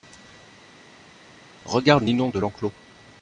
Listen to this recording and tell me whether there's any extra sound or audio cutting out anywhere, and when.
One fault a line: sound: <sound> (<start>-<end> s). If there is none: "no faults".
no faults